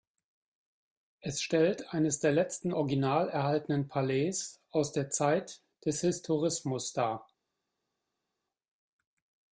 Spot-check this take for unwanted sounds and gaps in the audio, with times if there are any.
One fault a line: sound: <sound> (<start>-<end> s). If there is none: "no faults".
no faults